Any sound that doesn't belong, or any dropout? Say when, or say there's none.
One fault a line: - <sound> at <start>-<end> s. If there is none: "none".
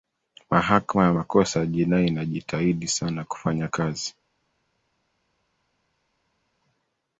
none